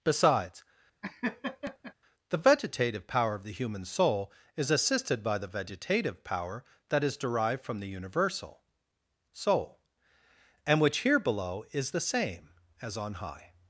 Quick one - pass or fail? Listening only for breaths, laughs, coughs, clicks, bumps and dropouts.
fail